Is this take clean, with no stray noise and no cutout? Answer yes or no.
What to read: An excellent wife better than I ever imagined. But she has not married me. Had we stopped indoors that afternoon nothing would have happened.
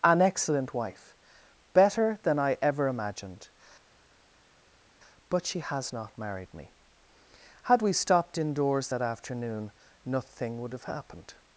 yes